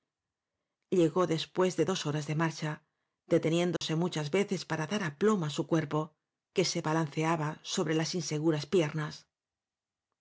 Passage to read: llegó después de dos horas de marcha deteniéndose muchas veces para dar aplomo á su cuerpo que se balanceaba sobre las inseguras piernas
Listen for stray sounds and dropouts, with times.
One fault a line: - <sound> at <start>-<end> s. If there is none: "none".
- dropout at 3.8-3.8 s